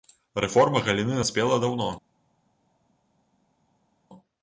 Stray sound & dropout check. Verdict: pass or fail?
pass